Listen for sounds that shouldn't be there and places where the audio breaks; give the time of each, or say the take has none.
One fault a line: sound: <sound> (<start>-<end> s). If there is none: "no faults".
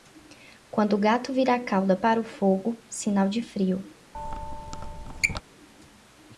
sound: squeak (4.1-5.4 s)